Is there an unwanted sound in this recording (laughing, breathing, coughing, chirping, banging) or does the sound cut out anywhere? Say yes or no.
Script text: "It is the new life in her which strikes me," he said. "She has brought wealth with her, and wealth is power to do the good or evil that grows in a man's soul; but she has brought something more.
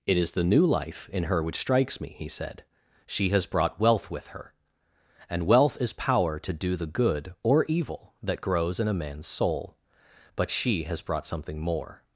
no